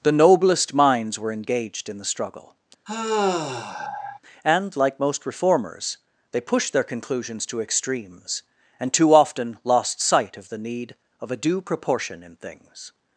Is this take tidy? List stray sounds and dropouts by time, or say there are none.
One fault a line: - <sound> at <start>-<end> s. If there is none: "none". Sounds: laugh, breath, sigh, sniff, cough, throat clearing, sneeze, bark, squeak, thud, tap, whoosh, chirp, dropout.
- sigh at 2.9-4.2 s